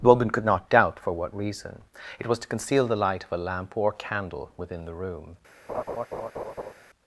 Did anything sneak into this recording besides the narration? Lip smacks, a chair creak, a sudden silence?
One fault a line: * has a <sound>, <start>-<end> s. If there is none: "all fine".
* has a laugh, 5.7-6.7 s